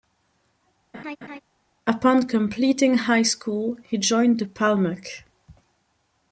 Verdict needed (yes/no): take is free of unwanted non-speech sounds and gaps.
no